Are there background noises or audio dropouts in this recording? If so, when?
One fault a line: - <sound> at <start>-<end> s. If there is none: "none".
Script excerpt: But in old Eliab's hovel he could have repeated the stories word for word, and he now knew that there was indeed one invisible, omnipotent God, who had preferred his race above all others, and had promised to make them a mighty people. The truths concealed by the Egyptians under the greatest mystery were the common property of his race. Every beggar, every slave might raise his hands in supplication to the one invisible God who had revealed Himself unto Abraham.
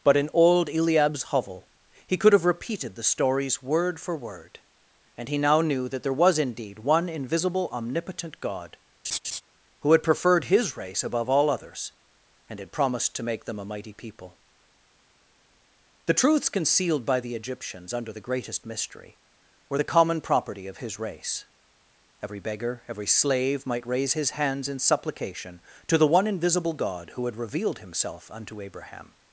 - laugh at 9.0-9.4 s